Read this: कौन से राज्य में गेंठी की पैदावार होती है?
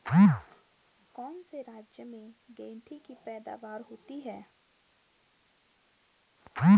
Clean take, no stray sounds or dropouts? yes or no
yes